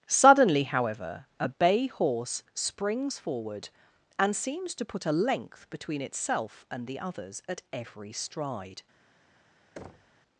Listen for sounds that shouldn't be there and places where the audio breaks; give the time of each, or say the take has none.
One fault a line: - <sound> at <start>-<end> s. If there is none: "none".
- thud at 9.8-10.2 s